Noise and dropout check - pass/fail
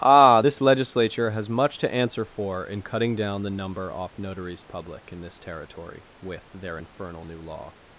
pass